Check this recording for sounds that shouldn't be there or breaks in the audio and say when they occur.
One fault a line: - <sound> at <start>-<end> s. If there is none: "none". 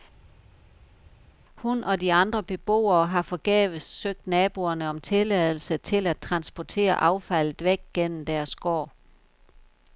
none